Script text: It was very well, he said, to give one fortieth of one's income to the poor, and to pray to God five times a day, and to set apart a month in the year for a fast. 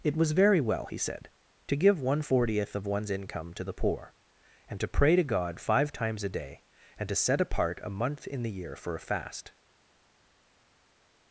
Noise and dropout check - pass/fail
pass